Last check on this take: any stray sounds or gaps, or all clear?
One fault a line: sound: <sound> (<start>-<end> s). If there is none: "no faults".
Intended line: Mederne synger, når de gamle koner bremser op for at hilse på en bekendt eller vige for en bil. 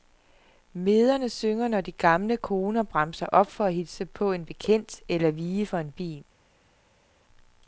no faults